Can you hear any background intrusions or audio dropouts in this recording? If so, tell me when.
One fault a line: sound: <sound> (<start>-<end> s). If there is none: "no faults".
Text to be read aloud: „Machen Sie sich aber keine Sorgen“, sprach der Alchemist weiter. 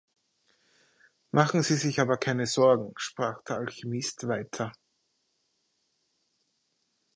no faults